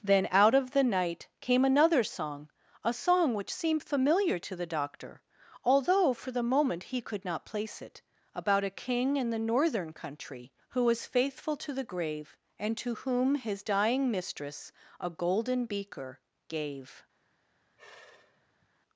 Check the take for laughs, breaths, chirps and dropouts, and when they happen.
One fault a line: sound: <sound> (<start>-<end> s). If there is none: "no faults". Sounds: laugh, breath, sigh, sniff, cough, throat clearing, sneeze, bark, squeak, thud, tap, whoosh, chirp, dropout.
sound: sigh (17.6-18.7 s)